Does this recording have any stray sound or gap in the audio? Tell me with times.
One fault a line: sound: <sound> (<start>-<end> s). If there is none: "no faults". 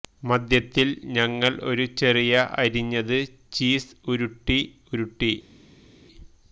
no faults